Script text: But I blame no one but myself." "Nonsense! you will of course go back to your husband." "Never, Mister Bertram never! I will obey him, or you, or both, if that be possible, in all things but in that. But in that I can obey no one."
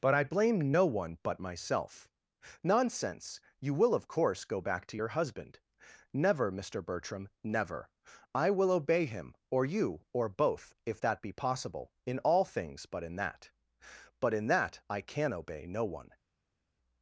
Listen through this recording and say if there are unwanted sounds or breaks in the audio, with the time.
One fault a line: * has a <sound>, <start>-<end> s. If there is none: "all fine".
all fine